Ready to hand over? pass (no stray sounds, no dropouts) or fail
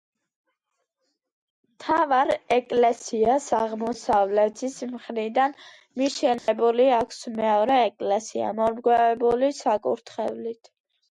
fail